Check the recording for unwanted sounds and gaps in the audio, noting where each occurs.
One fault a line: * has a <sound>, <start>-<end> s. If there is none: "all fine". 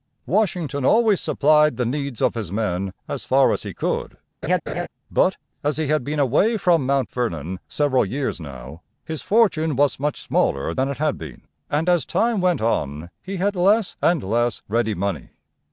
* has a laugh, 4.4-4.9 s